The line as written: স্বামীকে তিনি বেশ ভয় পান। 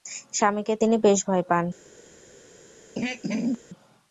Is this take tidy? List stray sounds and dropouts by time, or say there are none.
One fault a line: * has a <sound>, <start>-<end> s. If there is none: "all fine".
* has a throat clearing, 3.0-3.6 s